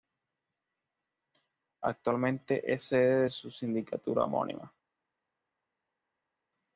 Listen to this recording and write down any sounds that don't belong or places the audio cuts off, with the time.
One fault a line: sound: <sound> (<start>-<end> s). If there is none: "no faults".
no faults